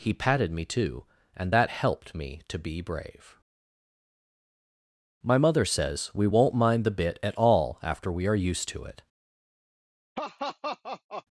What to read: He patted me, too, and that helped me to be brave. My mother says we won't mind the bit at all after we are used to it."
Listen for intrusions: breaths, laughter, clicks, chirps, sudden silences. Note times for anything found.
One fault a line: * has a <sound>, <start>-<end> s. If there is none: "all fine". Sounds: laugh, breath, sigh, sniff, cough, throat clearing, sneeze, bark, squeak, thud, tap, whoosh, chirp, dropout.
* has a laugh, 10.1-11.2 s